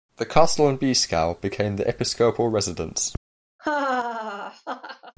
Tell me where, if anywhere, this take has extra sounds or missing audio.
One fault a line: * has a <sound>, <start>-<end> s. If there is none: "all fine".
* has a laugh, 3.6-5.1 s